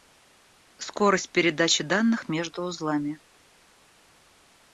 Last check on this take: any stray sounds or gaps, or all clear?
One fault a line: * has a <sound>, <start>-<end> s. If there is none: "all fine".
all fine